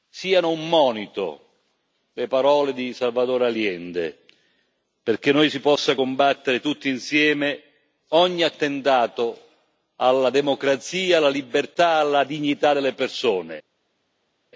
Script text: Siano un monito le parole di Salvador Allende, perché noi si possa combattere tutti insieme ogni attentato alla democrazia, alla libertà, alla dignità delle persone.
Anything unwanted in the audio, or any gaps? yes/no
no